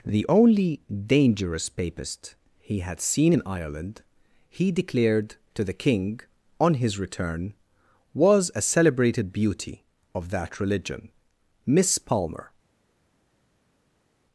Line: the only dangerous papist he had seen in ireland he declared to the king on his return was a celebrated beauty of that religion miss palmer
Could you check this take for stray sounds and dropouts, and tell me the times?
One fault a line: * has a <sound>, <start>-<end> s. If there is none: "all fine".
all fine